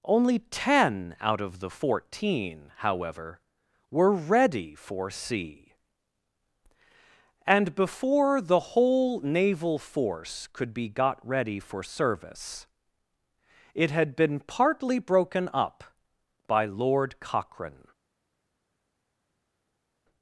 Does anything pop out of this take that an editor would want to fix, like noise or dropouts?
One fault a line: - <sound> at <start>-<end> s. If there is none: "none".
none